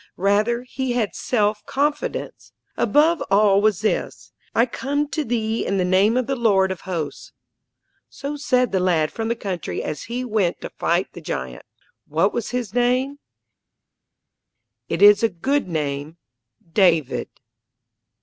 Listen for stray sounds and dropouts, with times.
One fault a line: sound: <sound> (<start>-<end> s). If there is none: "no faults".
no faults